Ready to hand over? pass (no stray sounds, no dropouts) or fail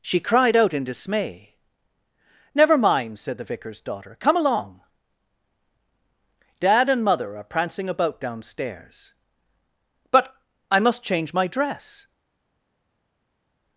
pass